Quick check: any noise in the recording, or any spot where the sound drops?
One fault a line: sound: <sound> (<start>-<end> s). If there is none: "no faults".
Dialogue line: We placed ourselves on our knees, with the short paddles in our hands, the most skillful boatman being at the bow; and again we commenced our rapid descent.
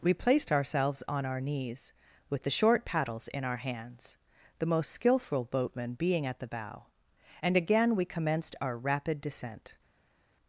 no faults